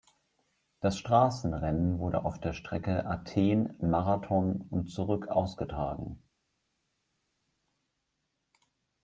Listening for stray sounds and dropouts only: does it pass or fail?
pass